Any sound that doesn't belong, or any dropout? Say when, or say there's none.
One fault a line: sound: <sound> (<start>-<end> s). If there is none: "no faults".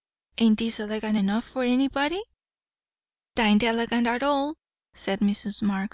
no faults